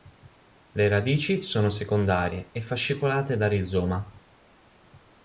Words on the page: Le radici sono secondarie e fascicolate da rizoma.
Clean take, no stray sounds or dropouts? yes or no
yes